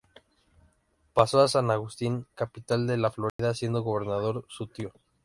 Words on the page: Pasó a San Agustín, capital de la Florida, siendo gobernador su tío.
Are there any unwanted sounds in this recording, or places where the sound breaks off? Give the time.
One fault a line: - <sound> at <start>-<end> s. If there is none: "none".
- dropout at 3.3-3.4 s